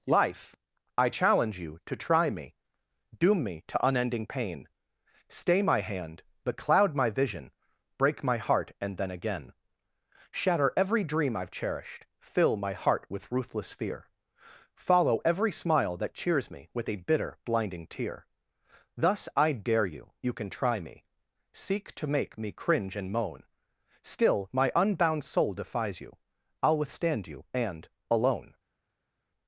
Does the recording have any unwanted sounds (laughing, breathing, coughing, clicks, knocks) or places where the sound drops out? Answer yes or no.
no